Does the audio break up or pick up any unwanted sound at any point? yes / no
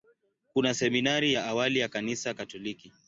no